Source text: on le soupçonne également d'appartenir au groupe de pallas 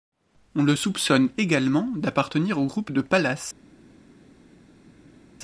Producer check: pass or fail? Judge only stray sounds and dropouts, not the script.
pass